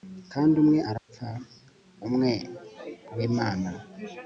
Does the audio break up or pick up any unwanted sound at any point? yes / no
yes